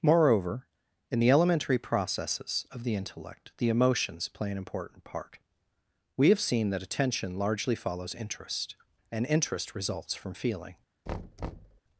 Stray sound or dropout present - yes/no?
yes